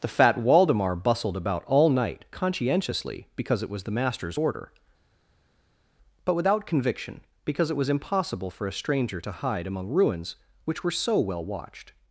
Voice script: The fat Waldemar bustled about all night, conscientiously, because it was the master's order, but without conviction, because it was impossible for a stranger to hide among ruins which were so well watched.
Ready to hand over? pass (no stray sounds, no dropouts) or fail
pass